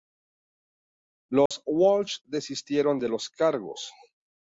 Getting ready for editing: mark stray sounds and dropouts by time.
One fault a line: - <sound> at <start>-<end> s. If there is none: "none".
- dropout at 1.5-1.5 s